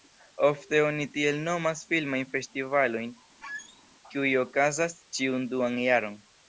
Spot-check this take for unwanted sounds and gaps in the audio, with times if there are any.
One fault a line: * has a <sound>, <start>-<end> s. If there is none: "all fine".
* has a squeak, 3.4-3.8 s